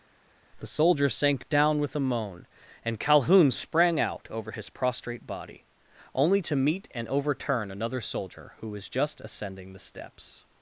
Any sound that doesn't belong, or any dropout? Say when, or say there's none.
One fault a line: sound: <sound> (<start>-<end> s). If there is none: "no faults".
no faults